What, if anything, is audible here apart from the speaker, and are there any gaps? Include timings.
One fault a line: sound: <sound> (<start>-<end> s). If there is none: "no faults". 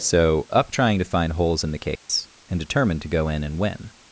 sound: dropout (2.0-2.1 s)